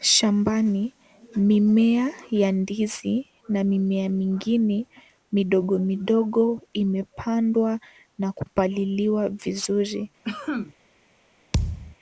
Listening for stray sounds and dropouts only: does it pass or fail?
fail